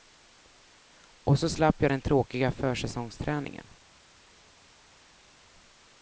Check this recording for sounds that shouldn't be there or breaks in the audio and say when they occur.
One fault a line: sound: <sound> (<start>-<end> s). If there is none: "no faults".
no faults